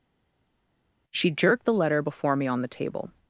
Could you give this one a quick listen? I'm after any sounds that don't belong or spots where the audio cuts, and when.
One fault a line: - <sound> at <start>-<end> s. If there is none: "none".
none